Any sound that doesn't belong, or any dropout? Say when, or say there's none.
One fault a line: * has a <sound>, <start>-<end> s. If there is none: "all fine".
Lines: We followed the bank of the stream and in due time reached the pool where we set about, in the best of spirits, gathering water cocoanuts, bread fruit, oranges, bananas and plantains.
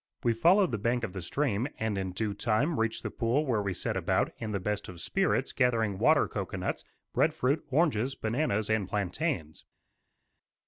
all fine